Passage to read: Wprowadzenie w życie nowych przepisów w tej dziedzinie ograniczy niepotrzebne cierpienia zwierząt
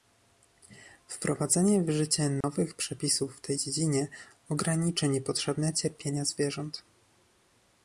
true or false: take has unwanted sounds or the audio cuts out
true